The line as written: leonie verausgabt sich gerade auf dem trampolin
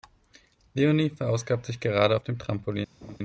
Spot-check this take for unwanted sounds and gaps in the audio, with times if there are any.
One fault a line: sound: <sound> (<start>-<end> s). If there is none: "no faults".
sound: laugh (3.0-3.2 s)